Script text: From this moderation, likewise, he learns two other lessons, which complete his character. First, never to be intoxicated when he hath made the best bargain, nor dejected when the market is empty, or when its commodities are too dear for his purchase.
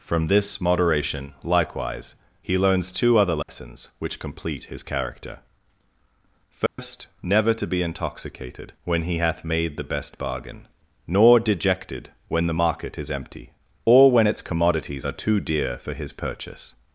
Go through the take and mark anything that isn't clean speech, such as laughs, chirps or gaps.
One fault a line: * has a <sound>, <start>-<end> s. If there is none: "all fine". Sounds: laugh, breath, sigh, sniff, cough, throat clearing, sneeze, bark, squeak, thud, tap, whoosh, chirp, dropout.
* has a dropout, 3.4-3.5 s
* has a dropout, 6.7-6.8 s